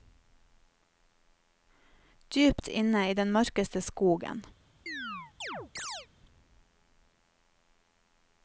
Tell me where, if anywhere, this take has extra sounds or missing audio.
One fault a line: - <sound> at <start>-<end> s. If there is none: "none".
- chirp at 4.9-6.1 s